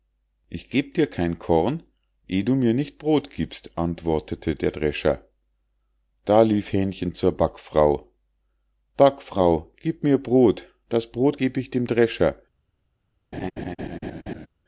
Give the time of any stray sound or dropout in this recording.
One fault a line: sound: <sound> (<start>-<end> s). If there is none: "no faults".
sound: laugh (13.3-14.5 s)